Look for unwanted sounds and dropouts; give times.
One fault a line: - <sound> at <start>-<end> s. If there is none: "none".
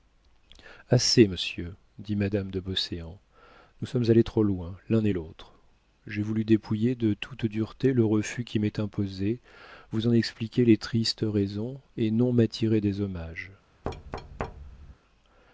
- thud at 13.8-14.9 s